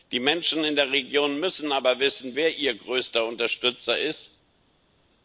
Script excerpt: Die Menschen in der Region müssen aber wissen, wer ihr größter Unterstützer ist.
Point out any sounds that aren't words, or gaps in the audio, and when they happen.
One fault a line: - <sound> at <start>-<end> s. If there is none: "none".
none